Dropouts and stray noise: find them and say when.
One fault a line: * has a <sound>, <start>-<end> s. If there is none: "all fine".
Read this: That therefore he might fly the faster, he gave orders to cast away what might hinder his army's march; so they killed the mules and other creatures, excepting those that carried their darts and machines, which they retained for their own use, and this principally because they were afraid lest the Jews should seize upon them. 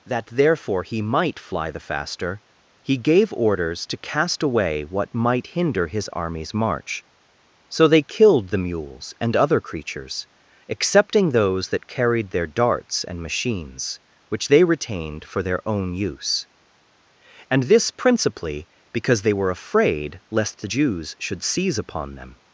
all fine